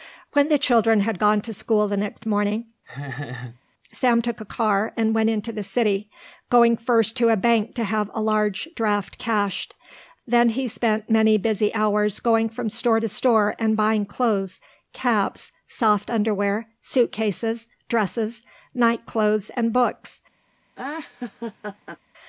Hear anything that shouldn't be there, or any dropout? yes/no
yes